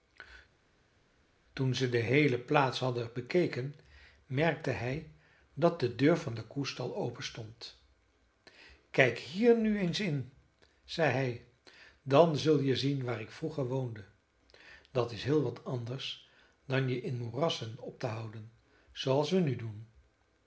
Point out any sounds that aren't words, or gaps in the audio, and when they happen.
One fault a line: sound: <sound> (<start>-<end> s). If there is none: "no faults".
no faults